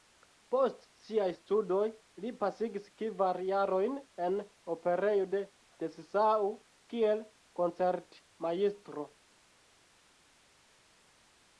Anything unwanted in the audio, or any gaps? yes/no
no